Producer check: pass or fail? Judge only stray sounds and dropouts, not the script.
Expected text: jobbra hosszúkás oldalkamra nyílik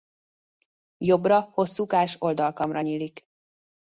pass